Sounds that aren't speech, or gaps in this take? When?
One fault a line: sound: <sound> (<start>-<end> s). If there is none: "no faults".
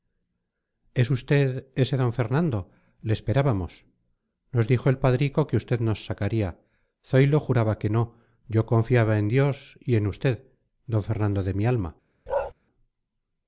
sound: bark (12.3-12.5 s)